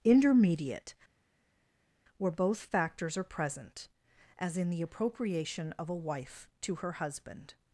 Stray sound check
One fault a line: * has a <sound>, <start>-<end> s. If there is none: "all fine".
all fine